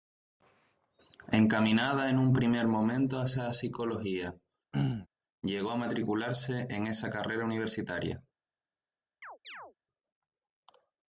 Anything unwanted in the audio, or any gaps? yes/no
yes